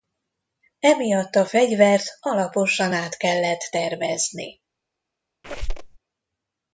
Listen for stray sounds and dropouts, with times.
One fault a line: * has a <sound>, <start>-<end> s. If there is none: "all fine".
* has a squeak, 5.4-6.0 s